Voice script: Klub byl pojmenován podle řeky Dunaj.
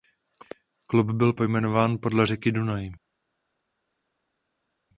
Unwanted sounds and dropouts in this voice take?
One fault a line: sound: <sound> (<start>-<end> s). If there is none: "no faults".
no faults